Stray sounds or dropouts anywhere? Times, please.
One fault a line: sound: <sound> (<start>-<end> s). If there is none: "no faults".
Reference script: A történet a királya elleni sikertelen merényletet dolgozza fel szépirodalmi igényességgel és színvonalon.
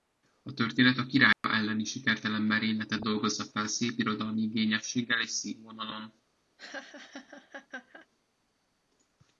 sound: dropout (1.3-1.4 s)
sound: laugh (6.6-8.1 s)